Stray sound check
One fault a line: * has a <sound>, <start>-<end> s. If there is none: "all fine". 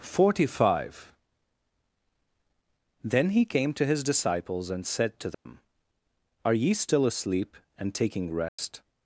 * has a dropout, 5.3-5.5 s
* has a dropout, 8.5-8.6 s